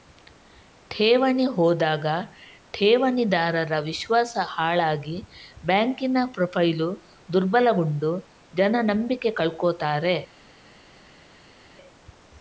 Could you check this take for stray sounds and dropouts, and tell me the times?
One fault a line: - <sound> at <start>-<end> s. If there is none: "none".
none